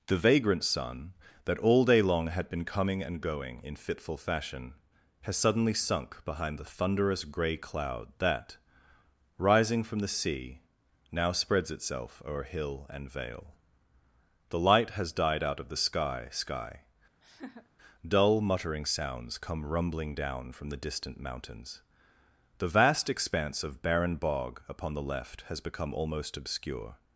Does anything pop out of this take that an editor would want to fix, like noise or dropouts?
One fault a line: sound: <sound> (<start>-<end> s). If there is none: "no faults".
sound: laugh (17.2-17.7 s)